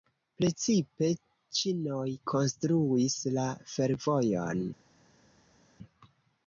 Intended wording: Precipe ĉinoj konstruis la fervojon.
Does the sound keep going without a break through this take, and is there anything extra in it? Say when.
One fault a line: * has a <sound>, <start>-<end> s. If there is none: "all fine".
all fine